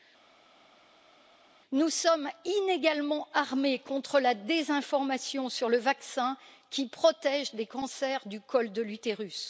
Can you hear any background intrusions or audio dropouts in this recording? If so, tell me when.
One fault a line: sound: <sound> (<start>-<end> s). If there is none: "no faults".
no faults